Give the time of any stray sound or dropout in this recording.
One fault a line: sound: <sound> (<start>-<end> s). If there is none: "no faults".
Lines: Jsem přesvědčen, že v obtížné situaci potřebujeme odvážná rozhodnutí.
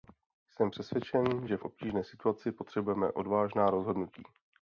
no faults